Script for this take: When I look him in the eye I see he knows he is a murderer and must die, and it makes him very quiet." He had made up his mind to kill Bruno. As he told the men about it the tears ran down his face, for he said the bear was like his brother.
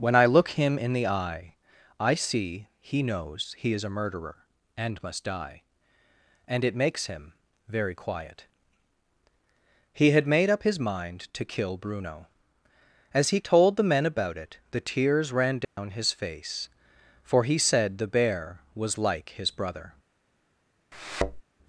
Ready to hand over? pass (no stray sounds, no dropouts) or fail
fail